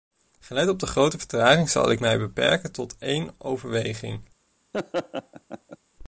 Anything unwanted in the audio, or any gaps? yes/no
yes